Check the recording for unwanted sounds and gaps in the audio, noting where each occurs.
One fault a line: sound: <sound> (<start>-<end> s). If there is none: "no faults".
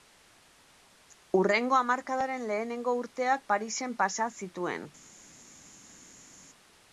no faults